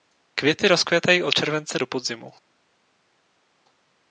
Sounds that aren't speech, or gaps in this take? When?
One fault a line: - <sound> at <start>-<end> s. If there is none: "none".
none